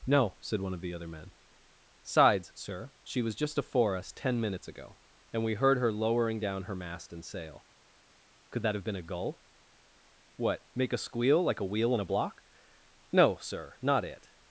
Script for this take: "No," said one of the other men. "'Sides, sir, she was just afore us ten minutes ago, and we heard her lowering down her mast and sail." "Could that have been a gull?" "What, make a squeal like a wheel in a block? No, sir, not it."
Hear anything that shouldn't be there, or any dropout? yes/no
no